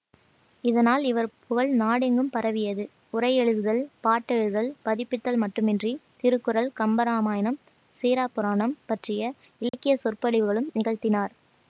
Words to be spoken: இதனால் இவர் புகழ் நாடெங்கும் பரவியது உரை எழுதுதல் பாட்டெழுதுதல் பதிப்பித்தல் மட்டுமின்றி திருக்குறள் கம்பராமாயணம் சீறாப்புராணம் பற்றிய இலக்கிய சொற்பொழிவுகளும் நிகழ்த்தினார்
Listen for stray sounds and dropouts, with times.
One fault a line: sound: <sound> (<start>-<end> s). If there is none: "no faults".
sound: dropout (9.7-9.7 s)